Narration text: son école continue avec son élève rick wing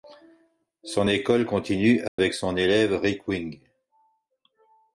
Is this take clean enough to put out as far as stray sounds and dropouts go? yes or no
no